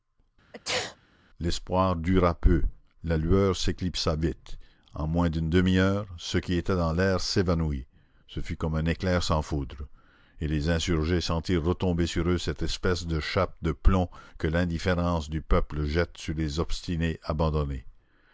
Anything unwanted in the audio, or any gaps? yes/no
yes